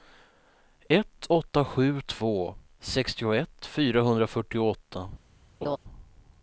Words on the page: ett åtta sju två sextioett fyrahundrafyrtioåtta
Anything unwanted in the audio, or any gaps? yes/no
yes